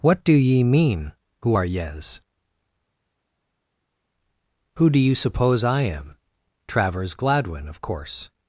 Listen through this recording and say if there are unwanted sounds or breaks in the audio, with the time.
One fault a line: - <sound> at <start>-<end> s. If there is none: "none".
none